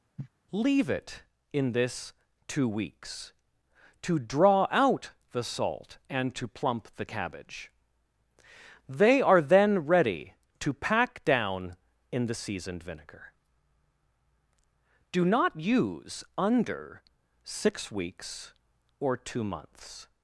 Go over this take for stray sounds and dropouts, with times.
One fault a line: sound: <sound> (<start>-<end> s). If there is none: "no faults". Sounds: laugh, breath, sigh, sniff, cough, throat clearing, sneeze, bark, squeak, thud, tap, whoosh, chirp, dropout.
sound: cough (0.2-0.3 s)